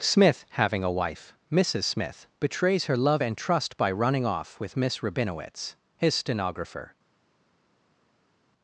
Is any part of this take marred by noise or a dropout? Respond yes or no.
no